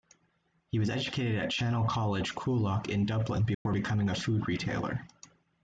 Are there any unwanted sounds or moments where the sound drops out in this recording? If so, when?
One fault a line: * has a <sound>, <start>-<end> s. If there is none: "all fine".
* has a dropout, 3.5-3.7 s